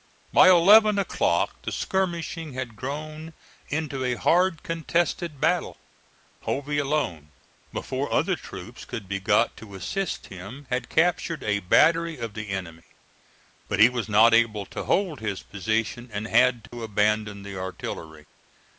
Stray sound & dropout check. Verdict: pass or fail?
fail